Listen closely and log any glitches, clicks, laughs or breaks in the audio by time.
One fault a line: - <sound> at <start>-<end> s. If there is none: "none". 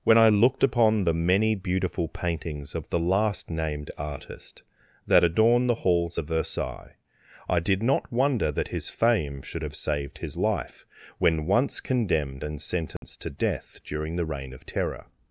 - dropout at 13.0-13.0 s